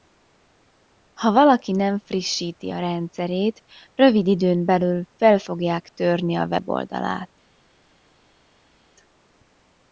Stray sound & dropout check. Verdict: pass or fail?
pass